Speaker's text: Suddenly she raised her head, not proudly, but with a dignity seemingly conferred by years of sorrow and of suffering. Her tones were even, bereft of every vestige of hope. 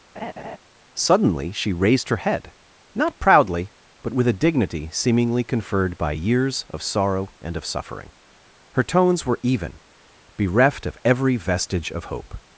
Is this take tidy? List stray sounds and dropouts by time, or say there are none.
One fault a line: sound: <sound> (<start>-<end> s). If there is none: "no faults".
sound: laugh (0.1-0.6 s)